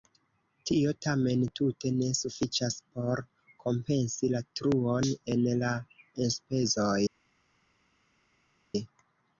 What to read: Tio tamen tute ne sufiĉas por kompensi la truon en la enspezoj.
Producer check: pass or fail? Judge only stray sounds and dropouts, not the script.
pass